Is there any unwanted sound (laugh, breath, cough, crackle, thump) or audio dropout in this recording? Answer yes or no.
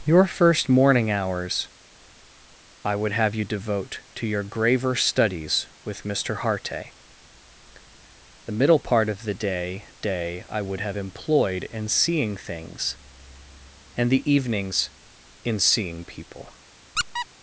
yes